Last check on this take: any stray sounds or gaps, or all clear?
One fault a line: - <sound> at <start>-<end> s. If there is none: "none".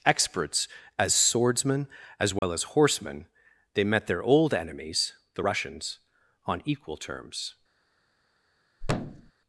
- dropout at 2.4-2.4 s
- thud at 8.8-9.3 s